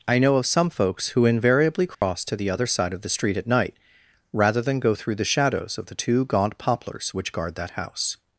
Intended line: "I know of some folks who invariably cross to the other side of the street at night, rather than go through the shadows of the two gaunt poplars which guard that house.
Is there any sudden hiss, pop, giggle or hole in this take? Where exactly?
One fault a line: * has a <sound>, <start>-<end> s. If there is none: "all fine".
* has a dropout, 1.9-2.0 s